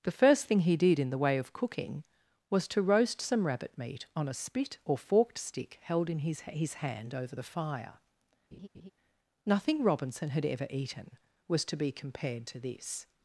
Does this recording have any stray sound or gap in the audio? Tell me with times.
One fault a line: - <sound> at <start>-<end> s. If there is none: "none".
- laugh at 8.5-8.9 s